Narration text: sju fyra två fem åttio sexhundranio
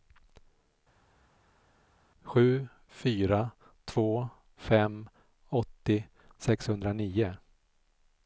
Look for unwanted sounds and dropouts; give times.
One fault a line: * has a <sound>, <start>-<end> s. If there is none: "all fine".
all fine